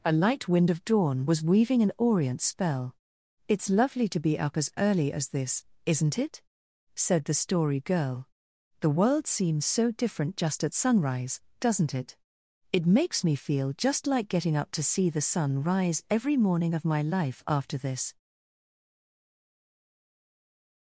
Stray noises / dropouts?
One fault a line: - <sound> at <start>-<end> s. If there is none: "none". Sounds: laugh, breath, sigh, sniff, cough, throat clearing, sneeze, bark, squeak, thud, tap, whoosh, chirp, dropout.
none